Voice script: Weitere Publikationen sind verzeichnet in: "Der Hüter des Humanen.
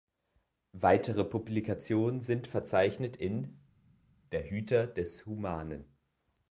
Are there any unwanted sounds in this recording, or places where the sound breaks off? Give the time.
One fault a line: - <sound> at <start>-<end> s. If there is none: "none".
none